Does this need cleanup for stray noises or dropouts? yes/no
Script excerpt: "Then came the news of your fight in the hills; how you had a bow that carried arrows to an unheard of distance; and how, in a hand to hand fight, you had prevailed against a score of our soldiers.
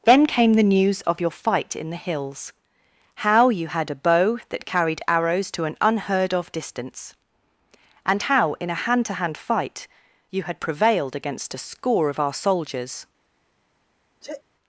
yes